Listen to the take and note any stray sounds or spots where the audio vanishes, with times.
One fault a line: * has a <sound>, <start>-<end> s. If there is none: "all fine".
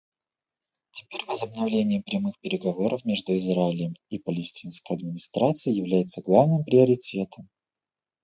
all fine